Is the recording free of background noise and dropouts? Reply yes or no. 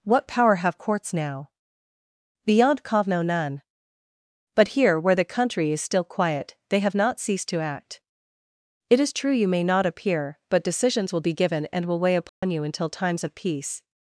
no